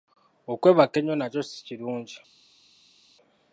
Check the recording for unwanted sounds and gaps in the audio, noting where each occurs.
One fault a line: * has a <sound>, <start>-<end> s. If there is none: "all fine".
all fine